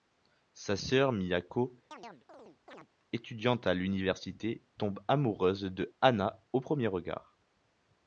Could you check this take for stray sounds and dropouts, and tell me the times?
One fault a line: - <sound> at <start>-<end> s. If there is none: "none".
- chirp at 1.9-2.9 s